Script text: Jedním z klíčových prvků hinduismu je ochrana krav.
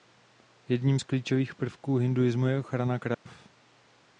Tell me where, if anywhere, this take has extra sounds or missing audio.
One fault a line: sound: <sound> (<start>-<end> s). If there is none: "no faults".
sound: dropout (3.1-3.3 s)